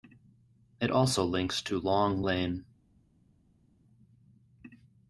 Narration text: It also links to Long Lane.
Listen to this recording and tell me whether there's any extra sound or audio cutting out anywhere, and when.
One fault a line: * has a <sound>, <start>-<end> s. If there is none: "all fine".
all fine